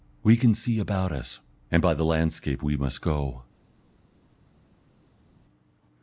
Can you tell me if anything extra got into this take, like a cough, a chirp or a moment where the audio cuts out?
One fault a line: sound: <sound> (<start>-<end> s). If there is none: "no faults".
no faults